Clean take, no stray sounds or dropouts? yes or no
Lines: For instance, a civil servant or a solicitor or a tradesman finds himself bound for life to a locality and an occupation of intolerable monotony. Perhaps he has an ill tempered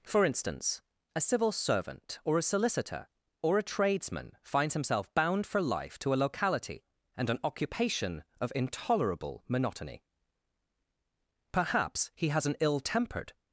yes